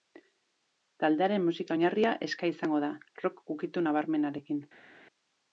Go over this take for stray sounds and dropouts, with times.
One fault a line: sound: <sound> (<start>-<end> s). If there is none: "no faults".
no faults